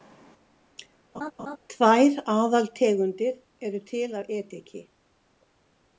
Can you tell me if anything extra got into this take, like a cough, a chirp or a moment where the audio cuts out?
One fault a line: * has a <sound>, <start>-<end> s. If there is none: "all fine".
* has a laugh, 1.1-1.6 s